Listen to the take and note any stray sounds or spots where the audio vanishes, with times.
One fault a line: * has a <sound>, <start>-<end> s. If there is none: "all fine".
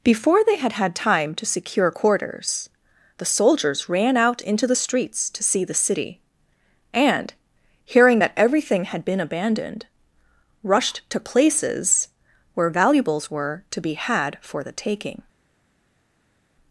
all fine